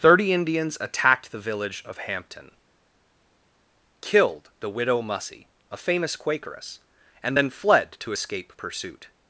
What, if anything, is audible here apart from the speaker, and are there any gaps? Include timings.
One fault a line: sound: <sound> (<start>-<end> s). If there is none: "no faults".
no faults